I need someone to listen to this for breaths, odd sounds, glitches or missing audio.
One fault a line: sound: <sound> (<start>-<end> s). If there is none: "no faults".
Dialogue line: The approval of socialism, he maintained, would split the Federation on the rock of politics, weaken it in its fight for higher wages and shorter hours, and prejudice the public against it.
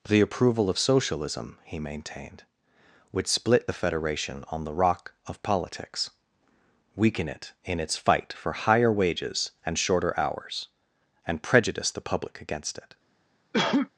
sound: cough (13.5-13.9 s)